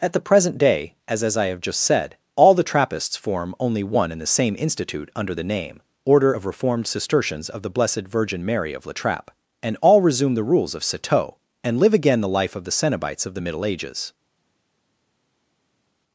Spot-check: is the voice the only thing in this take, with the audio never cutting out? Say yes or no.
yes